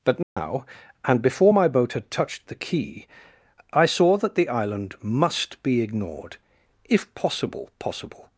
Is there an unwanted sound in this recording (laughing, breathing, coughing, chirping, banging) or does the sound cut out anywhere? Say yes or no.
yes